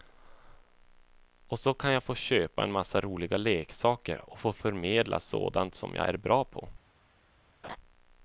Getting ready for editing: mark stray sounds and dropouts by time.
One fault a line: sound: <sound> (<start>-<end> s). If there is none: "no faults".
sound: laugh (7.6-7.8 s)